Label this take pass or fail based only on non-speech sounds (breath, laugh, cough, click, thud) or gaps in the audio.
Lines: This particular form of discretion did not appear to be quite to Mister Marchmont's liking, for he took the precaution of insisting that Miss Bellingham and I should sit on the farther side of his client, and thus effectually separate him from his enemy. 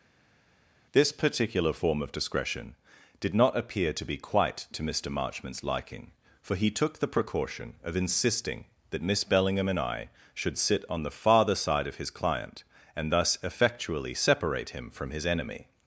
pass